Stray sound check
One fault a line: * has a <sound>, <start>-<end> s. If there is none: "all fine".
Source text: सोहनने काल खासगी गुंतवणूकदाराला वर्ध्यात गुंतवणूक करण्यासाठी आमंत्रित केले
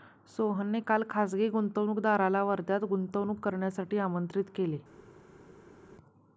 all fine